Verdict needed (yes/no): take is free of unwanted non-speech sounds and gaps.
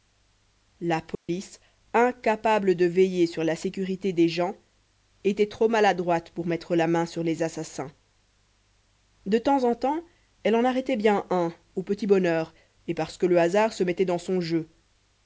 no